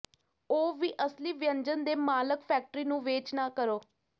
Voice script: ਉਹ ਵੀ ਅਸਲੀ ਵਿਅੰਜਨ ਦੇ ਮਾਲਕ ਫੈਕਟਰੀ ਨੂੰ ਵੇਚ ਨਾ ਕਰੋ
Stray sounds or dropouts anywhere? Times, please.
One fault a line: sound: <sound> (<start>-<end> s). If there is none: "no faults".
no faults